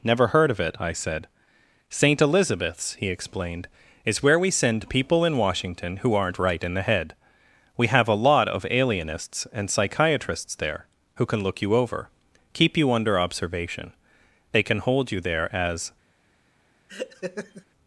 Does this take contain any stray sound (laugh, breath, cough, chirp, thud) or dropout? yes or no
yes